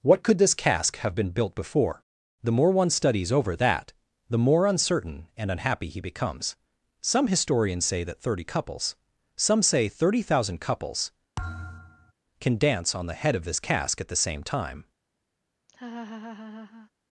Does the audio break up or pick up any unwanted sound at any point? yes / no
yes